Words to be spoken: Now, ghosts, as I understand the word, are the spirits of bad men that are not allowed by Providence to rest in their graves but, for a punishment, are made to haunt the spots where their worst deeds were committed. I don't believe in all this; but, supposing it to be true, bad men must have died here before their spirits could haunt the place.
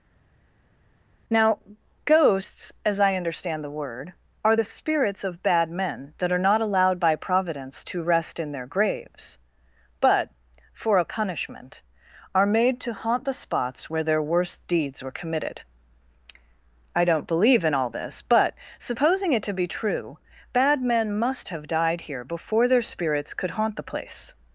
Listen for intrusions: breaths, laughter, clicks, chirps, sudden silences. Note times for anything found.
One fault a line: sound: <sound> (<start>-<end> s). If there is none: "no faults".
no faults